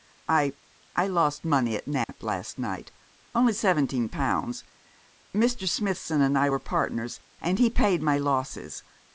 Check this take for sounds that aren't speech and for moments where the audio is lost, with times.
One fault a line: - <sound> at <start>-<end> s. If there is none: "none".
- dropout at 2.0-2.1 s